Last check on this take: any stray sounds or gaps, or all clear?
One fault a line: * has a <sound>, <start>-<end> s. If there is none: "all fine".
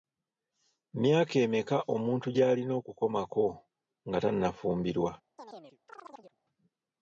* has a chirp, 5.4-6.4 s